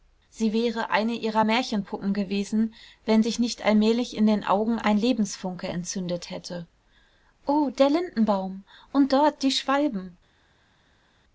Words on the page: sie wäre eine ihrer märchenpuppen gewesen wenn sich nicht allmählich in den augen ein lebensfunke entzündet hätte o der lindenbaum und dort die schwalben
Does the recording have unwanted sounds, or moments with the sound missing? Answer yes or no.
no